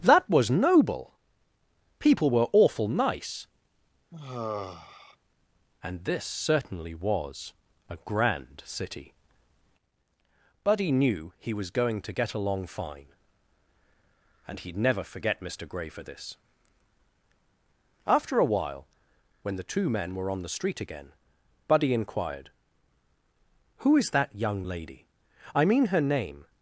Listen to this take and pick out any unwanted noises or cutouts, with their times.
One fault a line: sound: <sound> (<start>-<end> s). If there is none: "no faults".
sound: sigh (4.1-5.2 s)